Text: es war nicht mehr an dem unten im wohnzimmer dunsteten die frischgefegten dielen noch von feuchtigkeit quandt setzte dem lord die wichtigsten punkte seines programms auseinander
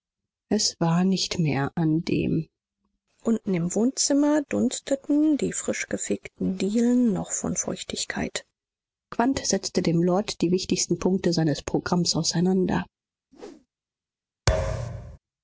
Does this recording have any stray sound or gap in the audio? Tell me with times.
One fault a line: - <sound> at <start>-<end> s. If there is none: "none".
- whoosh at 13.3-13.7 s
- thud at 14.5-15.2 s